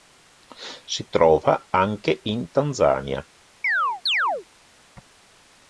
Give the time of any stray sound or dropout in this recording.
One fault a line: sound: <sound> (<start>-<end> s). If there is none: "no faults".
sound: chirp (3.6-4.5 s)